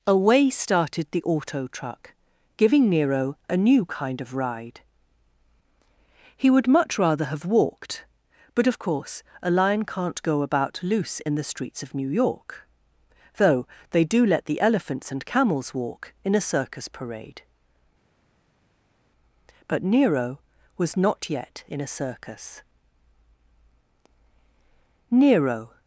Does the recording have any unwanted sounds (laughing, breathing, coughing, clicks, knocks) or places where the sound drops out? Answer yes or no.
no